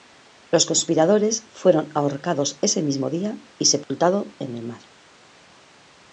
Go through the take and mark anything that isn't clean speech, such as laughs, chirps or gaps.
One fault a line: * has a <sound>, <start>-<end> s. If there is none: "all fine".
* has a dropout, 3.8-3.9 s